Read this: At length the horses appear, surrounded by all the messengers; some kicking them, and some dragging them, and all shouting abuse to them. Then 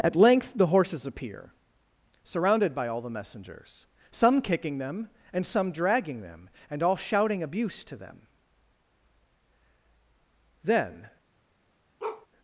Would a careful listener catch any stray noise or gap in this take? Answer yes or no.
yes